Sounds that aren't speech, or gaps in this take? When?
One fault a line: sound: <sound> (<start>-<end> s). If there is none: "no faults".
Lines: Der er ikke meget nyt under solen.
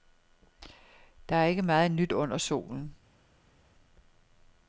no faults